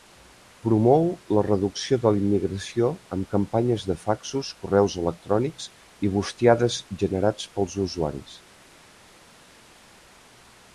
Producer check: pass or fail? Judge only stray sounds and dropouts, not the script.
pass